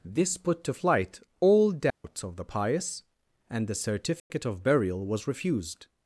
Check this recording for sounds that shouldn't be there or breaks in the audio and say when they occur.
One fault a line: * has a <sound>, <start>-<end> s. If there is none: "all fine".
* has a dropout, 1.9-2.0 s
* has a dropout, 4.2-4.3 s